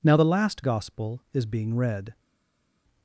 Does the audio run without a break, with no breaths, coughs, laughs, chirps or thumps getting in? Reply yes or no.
yes